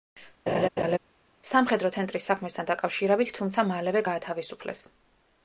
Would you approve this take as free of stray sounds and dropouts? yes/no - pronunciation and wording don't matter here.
no